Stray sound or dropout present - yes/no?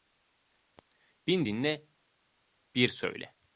no